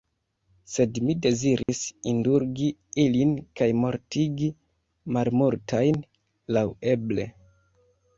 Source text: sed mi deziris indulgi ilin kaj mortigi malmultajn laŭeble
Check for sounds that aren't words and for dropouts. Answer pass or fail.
fail